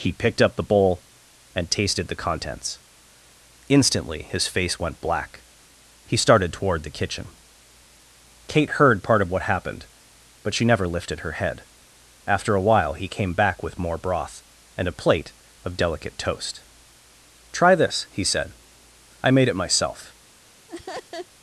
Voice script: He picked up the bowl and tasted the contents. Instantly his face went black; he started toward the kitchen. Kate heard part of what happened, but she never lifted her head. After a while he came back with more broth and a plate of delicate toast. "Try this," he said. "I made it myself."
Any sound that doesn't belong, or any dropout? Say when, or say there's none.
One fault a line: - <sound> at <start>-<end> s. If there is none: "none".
- laugh at 20.7-21.3 s